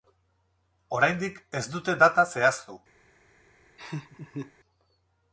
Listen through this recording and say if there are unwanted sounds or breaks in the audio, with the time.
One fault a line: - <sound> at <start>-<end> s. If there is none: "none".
- laugh at 3.8-4.5 s